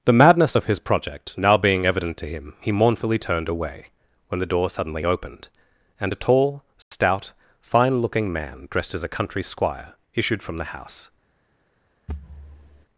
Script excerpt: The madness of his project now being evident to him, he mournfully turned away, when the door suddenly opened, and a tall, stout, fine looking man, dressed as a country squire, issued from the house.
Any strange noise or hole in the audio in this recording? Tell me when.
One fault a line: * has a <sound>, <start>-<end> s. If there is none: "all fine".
* has a dropout, 6.8-6.9 s
* has a thud, 12.1-12.9 s